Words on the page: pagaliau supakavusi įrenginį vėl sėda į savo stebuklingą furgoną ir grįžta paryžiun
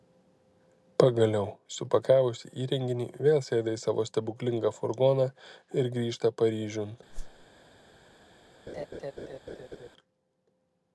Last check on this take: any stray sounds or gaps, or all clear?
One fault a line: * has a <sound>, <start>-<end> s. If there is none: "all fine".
* has a whoosh, 7.1-7.5 s
* has a laugh, 8.7-9.9 s